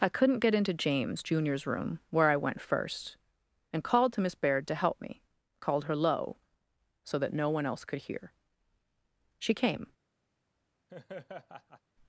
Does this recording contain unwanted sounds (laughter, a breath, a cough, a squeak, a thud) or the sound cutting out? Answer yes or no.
yes